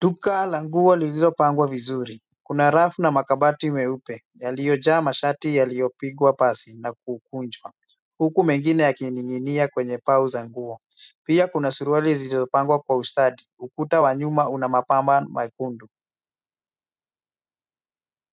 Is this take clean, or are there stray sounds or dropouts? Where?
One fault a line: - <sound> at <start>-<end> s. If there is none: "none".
none